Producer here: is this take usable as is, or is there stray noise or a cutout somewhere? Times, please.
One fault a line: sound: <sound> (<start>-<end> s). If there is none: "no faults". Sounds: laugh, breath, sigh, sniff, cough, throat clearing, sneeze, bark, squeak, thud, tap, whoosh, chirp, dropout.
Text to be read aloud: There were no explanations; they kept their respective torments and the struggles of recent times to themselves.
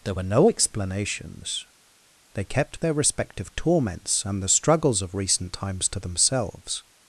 no faults